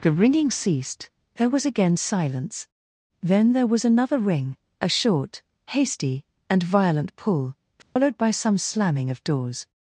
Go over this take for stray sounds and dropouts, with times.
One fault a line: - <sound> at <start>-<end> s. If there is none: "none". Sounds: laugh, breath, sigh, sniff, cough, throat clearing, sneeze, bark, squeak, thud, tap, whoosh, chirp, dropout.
- dropout at 7.8-8.0 s